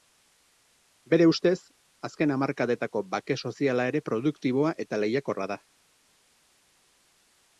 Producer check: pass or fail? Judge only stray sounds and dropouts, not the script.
pass